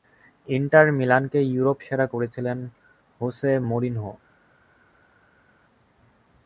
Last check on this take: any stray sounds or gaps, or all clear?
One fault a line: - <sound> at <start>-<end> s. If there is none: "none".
none